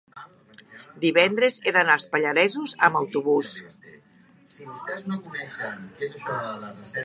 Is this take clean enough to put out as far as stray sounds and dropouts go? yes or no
yes